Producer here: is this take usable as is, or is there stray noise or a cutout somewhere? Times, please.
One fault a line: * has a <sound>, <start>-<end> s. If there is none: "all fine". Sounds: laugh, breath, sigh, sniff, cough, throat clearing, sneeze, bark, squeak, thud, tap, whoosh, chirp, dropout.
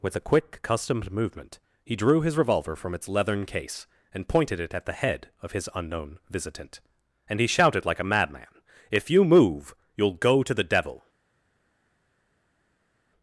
all fine